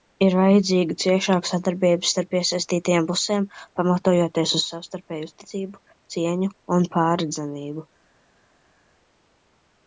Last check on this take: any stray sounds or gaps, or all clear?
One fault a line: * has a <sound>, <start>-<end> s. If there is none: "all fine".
all fine